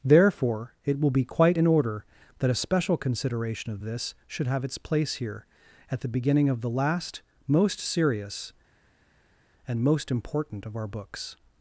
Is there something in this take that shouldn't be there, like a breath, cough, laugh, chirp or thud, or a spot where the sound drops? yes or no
no